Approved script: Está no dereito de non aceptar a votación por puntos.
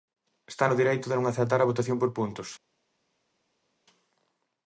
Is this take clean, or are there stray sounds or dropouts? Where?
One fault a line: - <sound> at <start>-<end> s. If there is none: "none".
none